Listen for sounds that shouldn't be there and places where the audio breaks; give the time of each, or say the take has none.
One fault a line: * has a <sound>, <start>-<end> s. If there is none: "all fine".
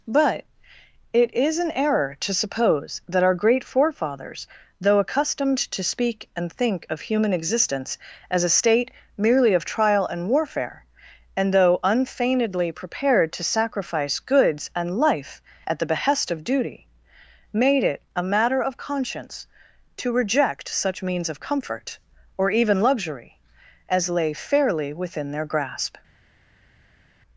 all fine